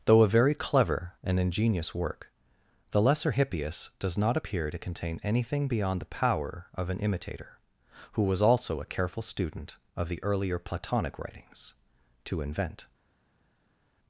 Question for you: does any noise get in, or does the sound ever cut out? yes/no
no